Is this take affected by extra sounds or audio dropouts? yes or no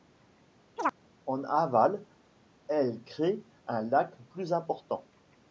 yes